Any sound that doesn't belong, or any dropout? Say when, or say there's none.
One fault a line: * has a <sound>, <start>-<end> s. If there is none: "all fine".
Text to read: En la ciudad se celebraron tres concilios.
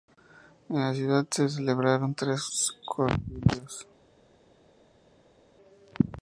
all fine